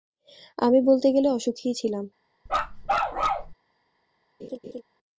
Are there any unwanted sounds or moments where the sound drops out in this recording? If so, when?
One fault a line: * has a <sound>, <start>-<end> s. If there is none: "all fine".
* has a bark, 2.5-3.5 s
* has a laugh, 4.4-4.8 s